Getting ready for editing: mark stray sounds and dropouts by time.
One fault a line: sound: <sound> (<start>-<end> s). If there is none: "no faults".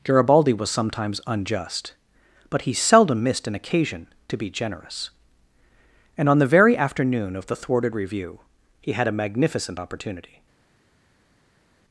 no faults